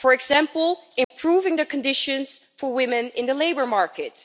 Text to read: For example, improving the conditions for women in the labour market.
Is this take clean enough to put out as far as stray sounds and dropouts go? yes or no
no